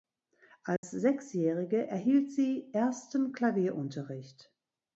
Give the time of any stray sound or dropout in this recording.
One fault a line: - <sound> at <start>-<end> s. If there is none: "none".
- dropout at 0.8-0.8 s